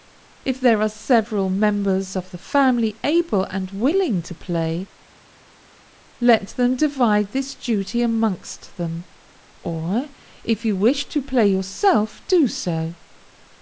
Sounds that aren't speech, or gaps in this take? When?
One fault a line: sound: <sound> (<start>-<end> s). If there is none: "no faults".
no faults